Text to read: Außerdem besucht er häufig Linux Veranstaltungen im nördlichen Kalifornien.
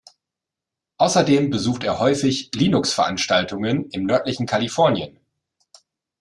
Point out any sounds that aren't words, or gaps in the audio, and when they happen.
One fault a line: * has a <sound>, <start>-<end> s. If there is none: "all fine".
all fine